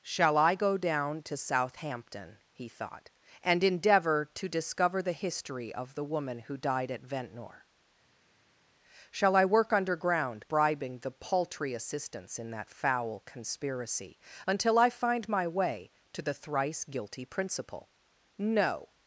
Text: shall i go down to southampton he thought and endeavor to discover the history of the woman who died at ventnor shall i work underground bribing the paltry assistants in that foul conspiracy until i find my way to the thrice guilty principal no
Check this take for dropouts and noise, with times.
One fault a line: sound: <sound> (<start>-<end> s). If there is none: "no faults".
no faults